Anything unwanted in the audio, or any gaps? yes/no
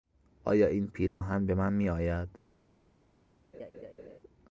yes